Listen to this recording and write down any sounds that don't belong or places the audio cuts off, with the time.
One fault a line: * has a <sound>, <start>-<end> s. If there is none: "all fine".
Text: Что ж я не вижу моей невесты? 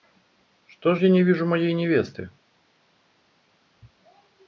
all fine